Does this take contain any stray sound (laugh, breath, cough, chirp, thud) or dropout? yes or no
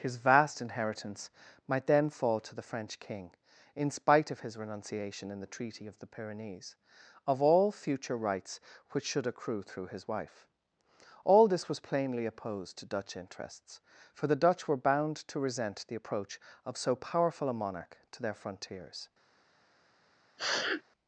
yes